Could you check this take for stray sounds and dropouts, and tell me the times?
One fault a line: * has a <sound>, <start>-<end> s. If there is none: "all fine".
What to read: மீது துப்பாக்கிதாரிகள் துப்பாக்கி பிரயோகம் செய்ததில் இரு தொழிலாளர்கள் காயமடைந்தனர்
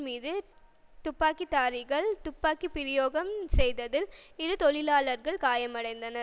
all fine